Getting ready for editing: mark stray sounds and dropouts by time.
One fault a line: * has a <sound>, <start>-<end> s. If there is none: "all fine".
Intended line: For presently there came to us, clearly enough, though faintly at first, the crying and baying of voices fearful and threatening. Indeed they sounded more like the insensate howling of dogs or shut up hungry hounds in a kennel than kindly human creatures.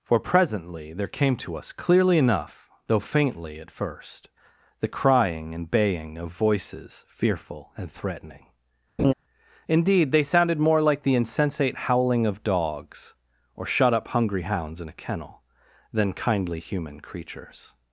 * has a laugh, 9.0-9.1 s